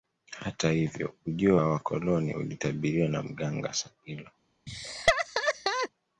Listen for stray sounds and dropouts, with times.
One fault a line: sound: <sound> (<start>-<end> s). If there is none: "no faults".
sound: laugh (4.7-5.9 s)